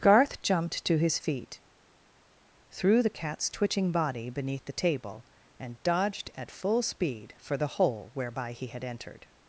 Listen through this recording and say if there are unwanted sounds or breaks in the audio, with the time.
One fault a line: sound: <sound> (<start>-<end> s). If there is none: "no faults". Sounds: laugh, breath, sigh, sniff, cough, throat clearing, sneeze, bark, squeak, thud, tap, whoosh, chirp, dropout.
no faults